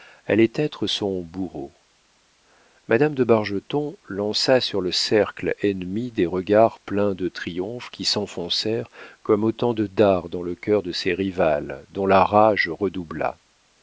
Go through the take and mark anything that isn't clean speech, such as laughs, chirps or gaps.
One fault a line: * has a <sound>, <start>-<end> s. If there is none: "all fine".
all fine